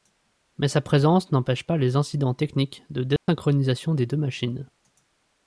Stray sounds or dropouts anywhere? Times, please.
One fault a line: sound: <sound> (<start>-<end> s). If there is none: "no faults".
sound: dropout (3.2-3.3 s)